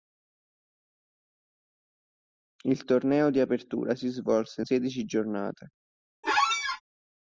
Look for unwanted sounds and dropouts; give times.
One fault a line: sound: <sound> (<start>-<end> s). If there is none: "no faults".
sound: squeak (6.2-6.8 s)